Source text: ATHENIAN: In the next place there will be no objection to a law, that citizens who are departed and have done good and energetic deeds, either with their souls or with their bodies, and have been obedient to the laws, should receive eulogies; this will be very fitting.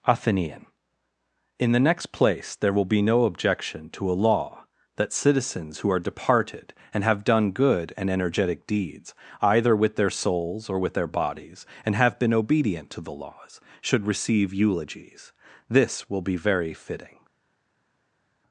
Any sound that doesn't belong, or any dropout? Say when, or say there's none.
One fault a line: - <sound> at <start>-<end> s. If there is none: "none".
none